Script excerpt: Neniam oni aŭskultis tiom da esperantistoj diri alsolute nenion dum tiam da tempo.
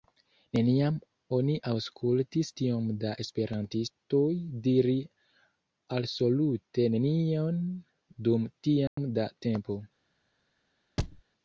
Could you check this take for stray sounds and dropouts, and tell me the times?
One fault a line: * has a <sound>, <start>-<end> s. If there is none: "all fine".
* has a dropout, 8.9-9.0 s
* has a thud, 11.0-11.2 s